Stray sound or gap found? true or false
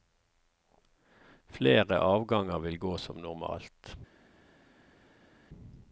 false